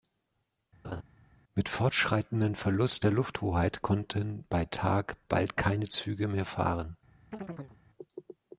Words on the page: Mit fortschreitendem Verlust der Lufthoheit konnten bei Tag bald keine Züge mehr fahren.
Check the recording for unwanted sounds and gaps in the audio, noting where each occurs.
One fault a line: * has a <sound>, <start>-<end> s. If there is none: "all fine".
* has a laugh, 0.8-1.0 s
* has a chirp, 7.3-7.8 s